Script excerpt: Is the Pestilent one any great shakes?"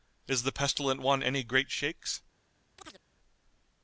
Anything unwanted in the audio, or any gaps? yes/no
yes